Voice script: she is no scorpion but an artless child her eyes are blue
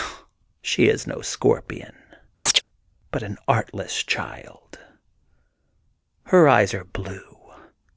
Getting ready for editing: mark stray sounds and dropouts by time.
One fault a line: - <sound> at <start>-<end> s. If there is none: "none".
- chirp at 2.5-2.6 s